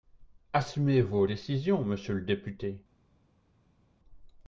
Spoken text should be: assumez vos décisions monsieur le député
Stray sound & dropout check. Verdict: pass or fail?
pass